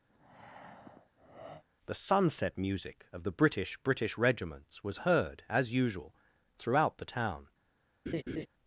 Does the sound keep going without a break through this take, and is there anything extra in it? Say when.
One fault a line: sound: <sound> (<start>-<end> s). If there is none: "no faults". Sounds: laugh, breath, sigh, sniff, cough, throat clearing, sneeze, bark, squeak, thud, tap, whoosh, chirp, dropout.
sound: breath (0.1-1.6 s)
sound: laugh (8.1-8.5 s)